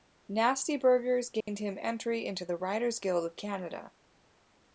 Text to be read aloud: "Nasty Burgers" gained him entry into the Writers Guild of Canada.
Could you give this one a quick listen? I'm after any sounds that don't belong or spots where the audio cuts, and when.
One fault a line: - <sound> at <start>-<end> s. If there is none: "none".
- dropout at 1.4-1.5 s